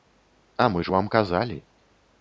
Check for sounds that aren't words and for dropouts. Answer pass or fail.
pass